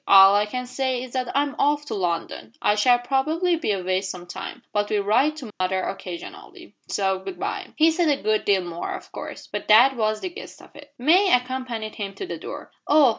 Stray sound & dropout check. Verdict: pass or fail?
fail